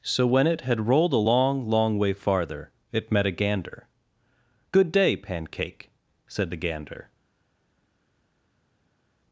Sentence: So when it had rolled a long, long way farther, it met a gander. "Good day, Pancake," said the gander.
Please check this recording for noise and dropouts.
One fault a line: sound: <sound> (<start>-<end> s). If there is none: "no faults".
no faults